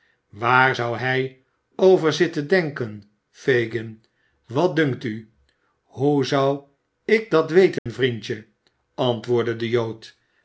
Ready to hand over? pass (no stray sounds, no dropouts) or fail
fail